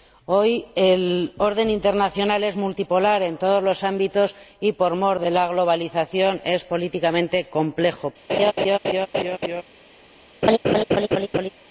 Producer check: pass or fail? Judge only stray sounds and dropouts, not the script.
fail